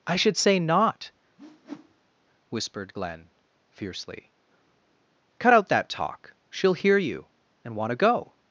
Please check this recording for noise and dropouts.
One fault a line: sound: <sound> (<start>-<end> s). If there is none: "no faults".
sound: whoosh (1.4-2.1 s)